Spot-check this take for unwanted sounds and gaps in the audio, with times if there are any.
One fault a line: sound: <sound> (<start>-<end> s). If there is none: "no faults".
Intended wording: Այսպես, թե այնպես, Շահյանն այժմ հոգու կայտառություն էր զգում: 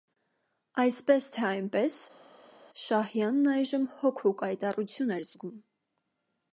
no faults